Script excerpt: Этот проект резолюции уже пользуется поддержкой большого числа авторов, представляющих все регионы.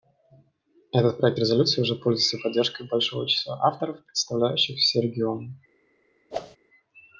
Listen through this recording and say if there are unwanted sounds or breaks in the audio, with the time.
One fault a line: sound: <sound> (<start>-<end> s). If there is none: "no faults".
sound: whoosh (6.3-6.6 s)